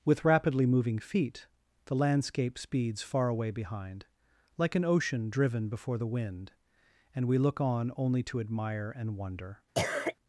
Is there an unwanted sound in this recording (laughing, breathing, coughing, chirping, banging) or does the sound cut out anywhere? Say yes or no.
yes